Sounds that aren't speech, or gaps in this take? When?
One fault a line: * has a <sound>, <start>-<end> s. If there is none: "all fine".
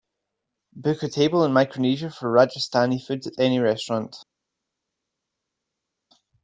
all fine